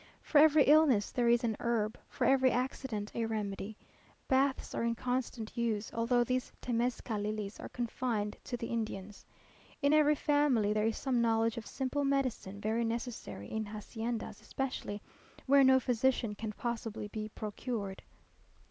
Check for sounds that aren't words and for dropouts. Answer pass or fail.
pass